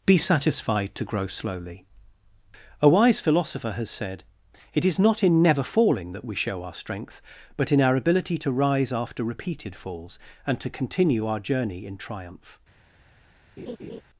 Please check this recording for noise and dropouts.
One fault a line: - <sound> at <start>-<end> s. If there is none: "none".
- laugh at 13.6-14.0 s